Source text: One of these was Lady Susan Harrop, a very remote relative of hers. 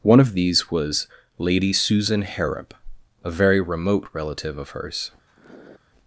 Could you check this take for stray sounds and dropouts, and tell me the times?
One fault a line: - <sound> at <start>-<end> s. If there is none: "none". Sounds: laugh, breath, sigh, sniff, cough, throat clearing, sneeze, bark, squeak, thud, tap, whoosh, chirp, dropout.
- sniff at 5.3-5.8 s